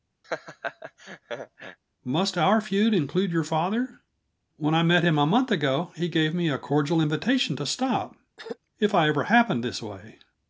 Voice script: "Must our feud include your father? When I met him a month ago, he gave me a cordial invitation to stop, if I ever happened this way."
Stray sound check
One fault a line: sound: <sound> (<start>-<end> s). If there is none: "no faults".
sound: laugh (0.2-1.8 s)
sound: throat clearing (8.4-8.6 s)